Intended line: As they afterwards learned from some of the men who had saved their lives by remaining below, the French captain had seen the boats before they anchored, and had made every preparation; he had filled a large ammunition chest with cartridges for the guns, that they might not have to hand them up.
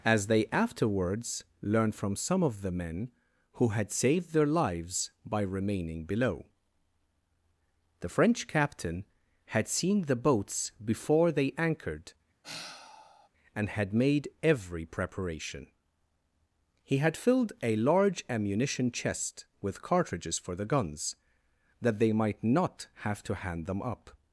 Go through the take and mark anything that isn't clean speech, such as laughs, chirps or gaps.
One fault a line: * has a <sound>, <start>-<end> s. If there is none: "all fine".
* has a sigh, 12.4-13.3 s